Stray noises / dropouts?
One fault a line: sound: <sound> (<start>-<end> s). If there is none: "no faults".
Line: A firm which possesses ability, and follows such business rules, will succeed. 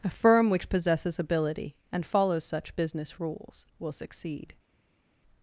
no faults